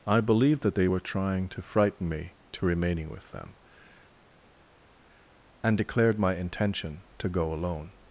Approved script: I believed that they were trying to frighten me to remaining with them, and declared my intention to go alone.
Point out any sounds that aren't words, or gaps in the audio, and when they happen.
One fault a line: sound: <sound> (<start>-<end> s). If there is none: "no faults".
no faults